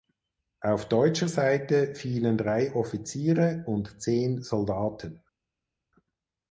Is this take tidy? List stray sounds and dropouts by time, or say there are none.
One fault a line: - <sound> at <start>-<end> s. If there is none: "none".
none